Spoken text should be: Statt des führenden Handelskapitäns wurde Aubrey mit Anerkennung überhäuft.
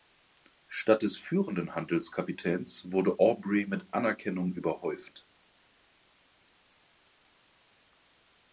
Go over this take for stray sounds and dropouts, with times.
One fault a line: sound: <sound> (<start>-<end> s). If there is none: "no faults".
no faults